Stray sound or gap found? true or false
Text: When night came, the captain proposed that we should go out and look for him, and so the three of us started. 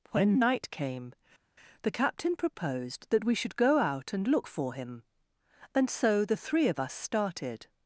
false